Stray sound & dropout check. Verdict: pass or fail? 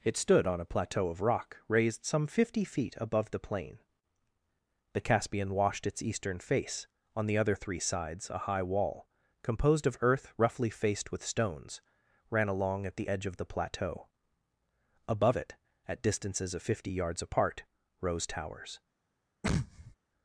fail